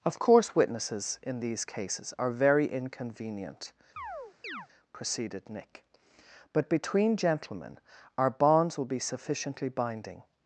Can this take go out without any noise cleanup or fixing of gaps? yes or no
no